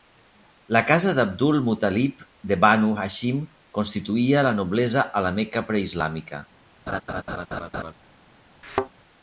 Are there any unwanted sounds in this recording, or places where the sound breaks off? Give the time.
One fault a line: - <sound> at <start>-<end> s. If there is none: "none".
- laugh at 6.9-7.9 s
- thud at 8.6-8.9 s